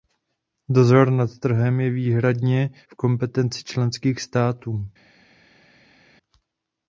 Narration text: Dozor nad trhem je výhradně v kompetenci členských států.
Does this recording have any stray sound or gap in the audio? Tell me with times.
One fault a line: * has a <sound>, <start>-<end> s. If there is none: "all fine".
all fine